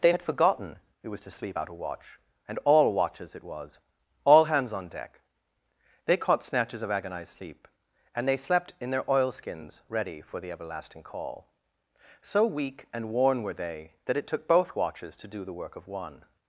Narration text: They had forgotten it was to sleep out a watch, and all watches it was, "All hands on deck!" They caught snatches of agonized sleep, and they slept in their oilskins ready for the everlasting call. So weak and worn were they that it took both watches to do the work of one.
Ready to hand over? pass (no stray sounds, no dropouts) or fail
pass